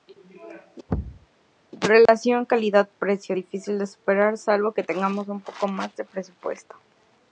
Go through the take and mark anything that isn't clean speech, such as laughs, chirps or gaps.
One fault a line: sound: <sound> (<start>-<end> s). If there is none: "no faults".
sound: thud (0.9-1.3 s)
sound: dropout (2.1-2.1 s)